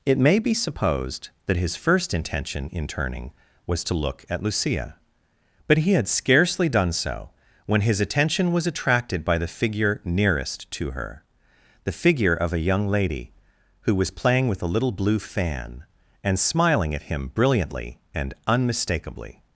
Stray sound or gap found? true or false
false